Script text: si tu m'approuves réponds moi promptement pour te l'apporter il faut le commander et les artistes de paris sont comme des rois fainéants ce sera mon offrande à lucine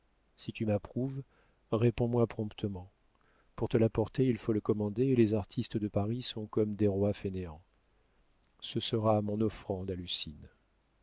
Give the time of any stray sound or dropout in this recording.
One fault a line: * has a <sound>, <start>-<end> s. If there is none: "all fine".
all fine